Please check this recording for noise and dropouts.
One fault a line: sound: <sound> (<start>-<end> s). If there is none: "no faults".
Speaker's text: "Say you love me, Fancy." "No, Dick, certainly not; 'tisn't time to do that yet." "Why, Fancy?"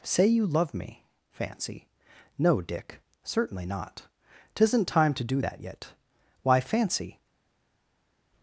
no faults